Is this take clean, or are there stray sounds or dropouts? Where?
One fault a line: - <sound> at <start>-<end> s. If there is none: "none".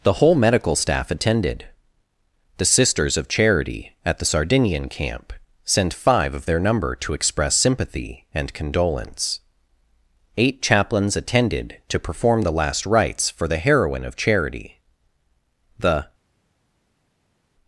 none